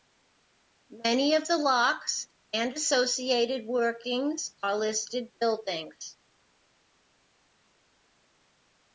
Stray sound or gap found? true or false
false